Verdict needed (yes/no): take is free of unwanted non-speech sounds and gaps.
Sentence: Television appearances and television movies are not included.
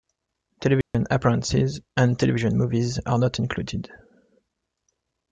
no